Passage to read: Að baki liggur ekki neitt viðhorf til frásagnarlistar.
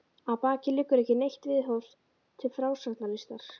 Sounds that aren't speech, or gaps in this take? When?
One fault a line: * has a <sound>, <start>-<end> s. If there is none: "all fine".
all fine